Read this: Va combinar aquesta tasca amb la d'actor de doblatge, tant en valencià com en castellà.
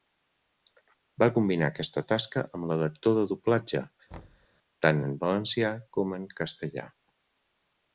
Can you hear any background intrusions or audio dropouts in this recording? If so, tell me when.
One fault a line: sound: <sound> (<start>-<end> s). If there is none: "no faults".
sound: thud (4.1-4.5 s)